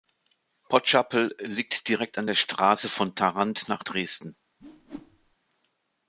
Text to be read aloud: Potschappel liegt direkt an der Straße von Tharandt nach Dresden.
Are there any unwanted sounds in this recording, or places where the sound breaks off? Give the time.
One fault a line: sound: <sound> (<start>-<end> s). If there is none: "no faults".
sound: whoosh (4.6-5.4 s)